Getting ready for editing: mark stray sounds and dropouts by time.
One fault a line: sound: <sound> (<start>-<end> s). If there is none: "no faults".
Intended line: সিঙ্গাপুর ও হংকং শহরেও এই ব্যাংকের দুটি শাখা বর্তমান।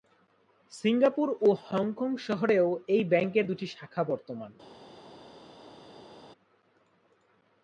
no faults